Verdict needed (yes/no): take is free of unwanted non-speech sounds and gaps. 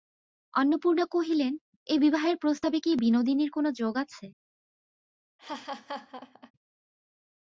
no